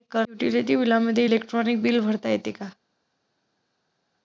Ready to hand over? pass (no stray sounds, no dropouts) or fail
pass